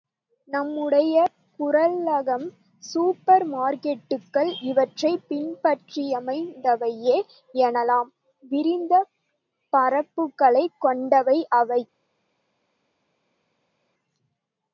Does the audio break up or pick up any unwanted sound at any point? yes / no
no